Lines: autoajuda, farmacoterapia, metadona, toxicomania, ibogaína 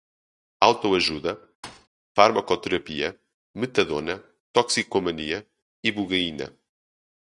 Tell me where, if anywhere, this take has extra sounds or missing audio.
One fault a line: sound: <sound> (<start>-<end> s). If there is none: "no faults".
sound: thud (1.6-1.9 s)